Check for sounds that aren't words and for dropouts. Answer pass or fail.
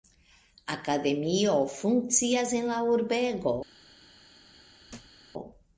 fail